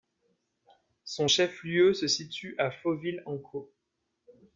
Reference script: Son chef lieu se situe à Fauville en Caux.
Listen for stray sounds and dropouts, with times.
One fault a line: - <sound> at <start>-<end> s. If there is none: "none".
none